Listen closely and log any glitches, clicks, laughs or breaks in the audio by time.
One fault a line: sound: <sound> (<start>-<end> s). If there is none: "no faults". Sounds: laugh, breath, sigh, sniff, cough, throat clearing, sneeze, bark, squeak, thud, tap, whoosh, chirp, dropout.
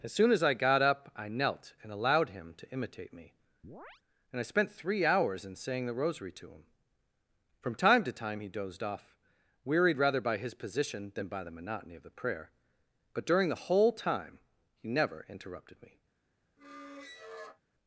sound: chirp (3.6-4.0 s)
sound: squeak (16.6-17.6 s)